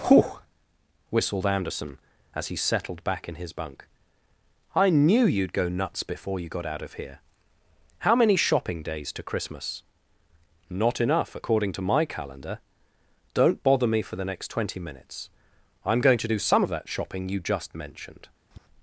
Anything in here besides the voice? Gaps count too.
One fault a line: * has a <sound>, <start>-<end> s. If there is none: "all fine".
* has a tap, 18.5-18.7 s